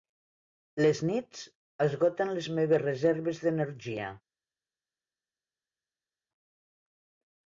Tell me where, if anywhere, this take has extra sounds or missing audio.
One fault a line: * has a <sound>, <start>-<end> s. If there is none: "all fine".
all fine